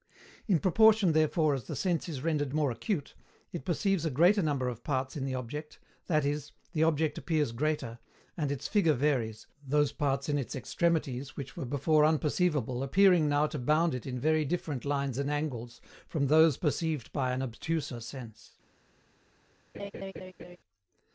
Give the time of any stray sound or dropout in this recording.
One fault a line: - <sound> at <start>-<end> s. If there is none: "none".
- laugh at 19.7-20.6 s